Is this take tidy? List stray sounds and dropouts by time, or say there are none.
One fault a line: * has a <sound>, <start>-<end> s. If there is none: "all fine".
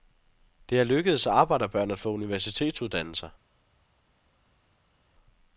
all fine